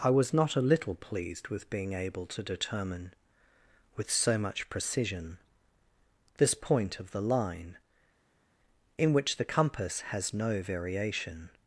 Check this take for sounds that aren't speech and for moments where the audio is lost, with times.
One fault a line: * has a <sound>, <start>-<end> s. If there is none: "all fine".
all fine